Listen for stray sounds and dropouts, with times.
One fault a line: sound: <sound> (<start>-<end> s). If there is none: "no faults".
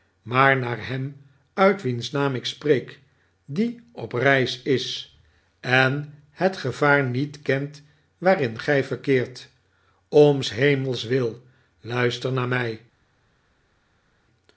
no faults